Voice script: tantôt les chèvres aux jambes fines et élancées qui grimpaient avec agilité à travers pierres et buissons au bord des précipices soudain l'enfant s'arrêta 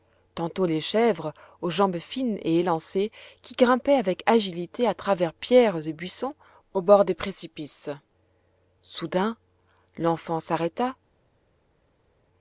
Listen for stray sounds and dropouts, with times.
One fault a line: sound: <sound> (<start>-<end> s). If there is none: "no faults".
no faults